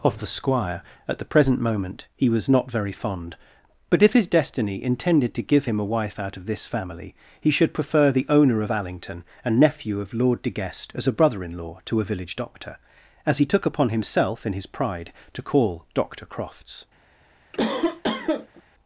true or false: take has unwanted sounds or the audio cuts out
true